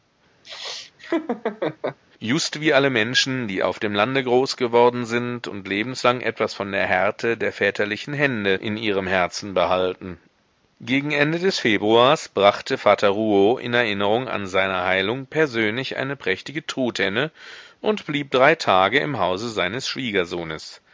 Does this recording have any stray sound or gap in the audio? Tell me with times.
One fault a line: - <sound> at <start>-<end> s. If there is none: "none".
- laugh at 0.4-2.0 s